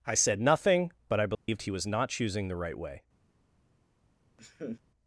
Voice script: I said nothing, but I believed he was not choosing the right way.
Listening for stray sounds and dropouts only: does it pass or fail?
fail